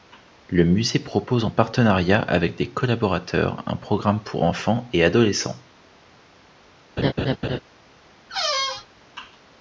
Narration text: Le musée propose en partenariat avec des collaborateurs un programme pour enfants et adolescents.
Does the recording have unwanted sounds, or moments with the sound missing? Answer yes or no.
yes